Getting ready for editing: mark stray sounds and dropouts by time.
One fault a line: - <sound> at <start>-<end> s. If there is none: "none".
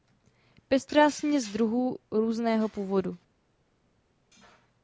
none